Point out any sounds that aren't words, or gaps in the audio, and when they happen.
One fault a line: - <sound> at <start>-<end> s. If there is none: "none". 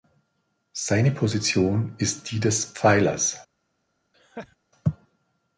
- laugh at 4.1-4.6 s